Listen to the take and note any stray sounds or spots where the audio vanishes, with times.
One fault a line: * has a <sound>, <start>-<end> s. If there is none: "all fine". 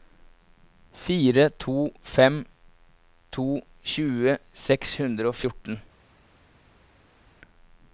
all fine